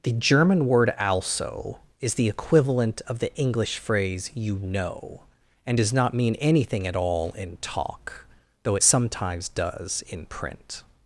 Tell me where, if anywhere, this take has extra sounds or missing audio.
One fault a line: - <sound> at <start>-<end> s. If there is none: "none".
none